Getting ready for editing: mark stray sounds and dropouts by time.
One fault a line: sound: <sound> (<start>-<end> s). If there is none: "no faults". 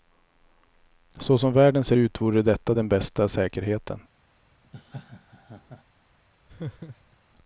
sound: laugh (4.6-5.8 s)
sound: laugh (6.5-7.2 s)